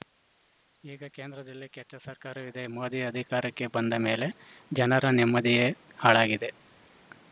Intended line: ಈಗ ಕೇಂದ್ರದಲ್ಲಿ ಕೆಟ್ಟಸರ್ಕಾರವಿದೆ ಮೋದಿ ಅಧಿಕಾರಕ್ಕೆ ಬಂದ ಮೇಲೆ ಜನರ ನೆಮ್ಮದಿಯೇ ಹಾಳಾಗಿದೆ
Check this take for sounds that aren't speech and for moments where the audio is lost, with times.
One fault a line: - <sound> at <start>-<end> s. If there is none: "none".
none